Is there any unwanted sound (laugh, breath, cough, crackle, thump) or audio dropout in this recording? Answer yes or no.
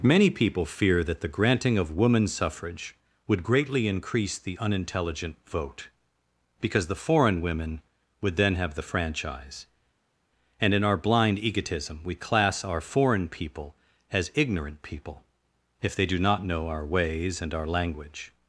no